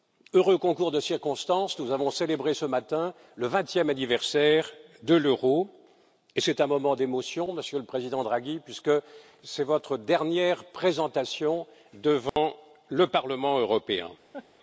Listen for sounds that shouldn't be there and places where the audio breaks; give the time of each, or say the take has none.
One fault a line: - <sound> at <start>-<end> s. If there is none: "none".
- dropout at 12.3-12.4 s
- laugh at 14.3-14.5 s